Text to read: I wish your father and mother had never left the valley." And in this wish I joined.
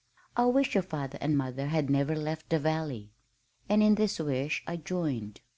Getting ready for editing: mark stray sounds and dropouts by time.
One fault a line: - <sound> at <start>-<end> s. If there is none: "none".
none